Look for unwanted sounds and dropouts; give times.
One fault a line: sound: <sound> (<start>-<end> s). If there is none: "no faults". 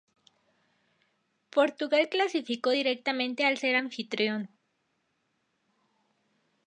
no faults